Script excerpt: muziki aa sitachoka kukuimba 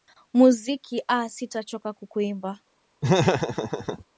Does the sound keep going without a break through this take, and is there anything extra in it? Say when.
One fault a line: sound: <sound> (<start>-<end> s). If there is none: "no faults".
sound: laugh (3.0-4.0 s)